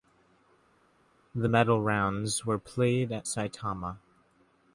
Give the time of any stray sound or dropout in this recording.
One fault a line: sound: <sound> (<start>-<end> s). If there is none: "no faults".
no faults